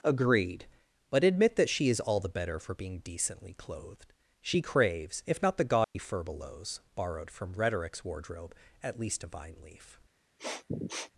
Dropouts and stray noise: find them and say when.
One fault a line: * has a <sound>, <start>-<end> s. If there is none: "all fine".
* has a dropout, 5.8-6.0 s
* has a sniff, 10.4-11.1 s